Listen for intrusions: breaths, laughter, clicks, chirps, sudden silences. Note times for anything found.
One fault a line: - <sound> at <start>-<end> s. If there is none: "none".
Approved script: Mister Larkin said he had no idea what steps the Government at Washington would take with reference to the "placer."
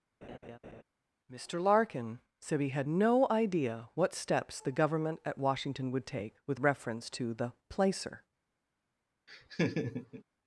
- laugh at 0.2-0.8 s
- laugh at 9.3-10.2 s